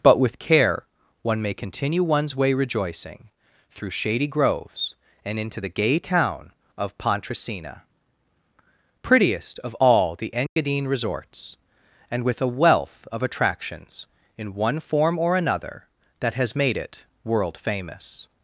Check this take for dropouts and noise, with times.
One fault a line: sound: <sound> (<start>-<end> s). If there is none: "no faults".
sound: dropout (10.5-10.6 s)